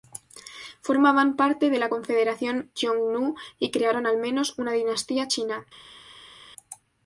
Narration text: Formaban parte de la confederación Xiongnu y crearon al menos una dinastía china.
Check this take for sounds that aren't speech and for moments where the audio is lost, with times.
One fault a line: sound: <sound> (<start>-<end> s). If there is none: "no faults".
no faults